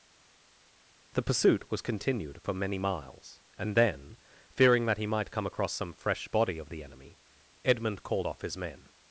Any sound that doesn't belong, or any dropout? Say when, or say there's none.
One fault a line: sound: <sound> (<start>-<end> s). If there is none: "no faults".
no faults